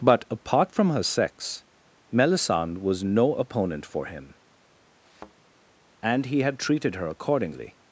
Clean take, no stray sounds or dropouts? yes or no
no